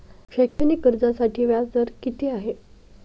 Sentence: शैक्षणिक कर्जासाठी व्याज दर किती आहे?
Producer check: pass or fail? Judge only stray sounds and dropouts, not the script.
fail